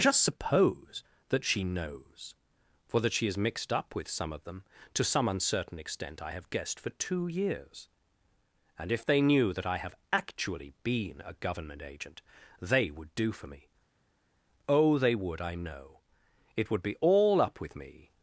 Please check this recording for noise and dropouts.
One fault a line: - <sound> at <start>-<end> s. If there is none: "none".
none